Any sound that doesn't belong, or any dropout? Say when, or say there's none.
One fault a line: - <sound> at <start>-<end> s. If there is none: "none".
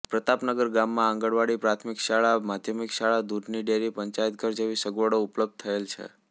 none